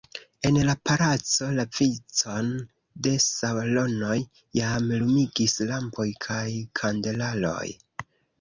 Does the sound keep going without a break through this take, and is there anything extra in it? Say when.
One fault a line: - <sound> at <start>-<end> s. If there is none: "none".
none